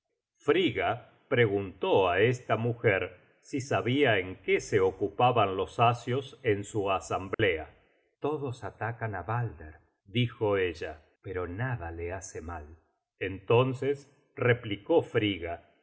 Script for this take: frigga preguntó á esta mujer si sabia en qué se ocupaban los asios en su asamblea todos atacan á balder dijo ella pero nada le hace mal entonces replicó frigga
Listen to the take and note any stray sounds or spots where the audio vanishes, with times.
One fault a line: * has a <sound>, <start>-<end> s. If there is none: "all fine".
* has a dropout, 7.3-7.4 s